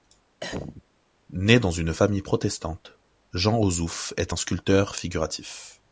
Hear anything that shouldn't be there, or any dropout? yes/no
yes